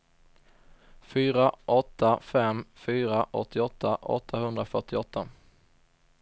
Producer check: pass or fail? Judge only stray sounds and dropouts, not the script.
pass